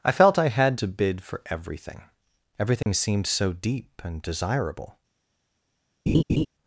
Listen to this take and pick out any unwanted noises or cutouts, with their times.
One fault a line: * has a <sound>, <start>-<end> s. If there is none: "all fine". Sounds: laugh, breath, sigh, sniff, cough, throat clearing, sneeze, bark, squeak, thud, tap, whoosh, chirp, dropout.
* has a dropout, 2.8-2.9 s
* has a laugh, 6.1-6.5 s